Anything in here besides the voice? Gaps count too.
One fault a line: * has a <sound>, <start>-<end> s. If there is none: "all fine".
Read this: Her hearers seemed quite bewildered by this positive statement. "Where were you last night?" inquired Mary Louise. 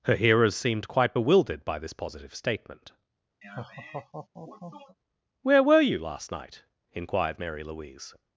* has a laugh, 3.4-5.0 s